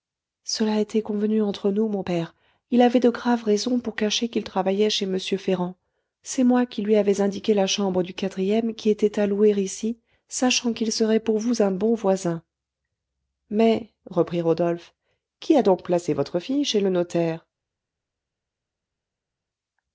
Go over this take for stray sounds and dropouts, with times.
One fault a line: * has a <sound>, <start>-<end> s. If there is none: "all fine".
all fine